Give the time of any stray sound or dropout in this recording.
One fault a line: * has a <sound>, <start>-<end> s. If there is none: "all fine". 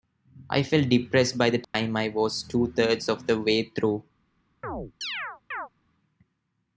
* has a dropout, 1.6-1.7 s
* has a chirp, 4.6-5.7 s